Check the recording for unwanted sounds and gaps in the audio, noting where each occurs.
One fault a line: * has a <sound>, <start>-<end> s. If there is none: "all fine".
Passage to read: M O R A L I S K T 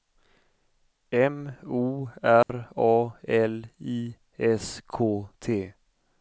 * has a dropout, 2.4-2.5 s